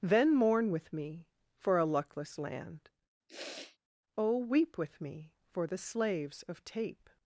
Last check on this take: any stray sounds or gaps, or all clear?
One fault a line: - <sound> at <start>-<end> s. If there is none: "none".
- sniff at 3.3-3.8 s